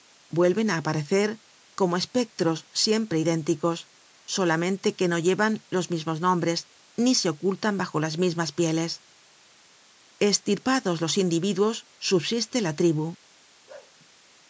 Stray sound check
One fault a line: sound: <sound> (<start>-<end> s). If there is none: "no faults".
sound: bark (13.7-14.0 s)